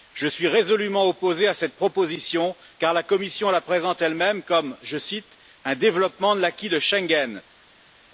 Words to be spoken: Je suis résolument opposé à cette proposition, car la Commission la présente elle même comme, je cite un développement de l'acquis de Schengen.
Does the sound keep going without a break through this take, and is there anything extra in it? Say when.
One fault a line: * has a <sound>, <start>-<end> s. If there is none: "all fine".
all fine